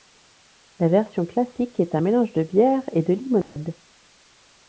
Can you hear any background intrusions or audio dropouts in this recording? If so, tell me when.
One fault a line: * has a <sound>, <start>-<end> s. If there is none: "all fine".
* has a dropout, 3.4-3.6 s